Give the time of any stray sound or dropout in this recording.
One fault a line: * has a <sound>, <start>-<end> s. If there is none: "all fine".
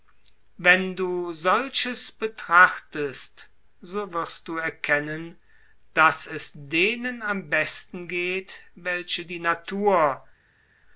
all fine